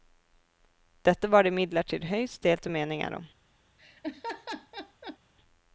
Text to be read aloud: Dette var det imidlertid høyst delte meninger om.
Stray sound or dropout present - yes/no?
yes